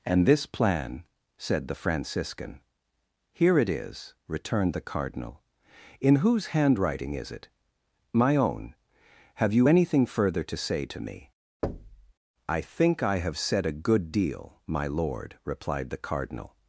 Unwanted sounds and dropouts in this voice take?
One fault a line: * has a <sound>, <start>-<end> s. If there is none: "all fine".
* has a thud, 11.6-12.1 s